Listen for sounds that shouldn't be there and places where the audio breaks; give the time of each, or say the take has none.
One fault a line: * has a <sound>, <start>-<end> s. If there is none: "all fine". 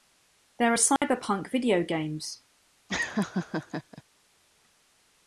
* has a dropout, 1.0-1.0 s
* has a laugh, 2.9-4.0 s